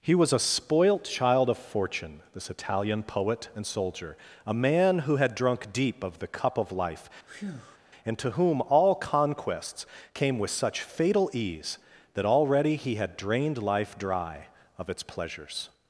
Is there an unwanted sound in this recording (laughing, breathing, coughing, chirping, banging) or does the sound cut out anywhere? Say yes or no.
yes